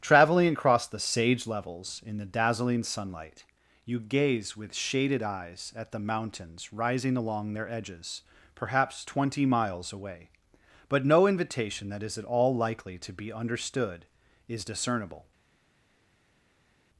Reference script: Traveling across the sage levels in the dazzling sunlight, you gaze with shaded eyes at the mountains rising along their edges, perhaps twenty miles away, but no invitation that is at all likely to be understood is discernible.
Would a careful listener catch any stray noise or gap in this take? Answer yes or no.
no